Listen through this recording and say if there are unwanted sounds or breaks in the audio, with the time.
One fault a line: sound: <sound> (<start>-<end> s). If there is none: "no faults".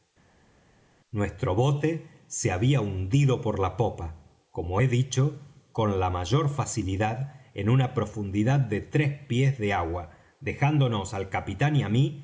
no faults